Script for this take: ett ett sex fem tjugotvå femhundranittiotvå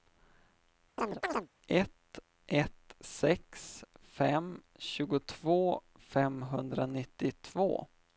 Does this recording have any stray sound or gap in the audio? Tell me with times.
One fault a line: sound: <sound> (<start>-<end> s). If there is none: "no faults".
sound: chirp (1.0-1.5 s)